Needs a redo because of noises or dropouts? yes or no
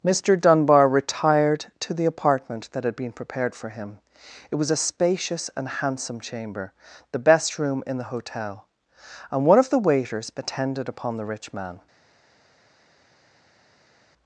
no